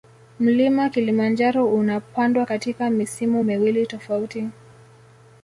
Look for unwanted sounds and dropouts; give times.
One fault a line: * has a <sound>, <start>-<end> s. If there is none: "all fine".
all fine